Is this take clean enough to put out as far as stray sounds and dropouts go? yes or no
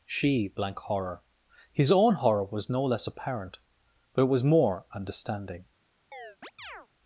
no